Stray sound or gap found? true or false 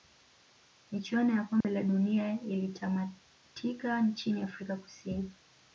true